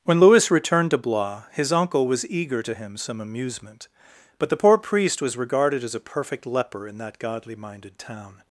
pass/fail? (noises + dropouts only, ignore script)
pass